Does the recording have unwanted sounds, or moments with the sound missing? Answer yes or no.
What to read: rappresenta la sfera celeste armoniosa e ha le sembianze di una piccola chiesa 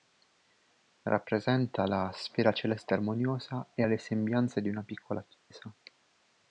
yes